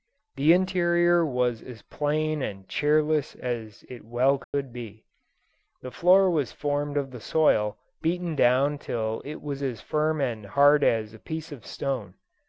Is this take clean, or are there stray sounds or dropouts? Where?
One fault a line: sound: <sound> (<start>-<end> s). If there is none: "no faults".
sound: dropout (4.4-4.5 s)